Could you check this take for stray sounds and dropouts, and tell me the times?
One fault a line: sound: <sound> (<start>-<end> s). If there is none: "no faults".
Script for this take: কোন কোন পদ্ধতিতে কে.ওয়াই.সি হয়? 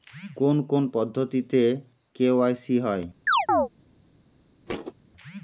sound: chirp (3.3-3.7 s)
sound: thud (4.7-4.9 s)